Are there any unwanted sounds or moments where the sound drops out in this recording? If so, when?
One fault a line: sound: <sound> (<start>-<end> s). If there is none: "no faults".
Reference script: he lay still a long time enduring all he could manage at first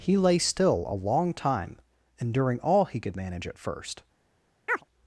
sound: chirp (4.7-4.8 s)